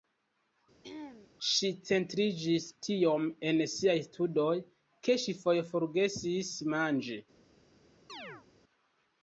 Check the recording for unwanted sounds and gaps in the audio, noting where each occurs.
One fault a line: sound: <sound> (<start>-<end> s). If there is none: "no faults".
sound: throat clearing (0.8-1.3 s)
sound: chirp (8.1-8.5 s)